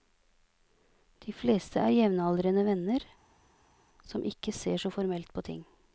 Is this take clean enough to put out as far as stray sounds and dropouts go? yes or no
yes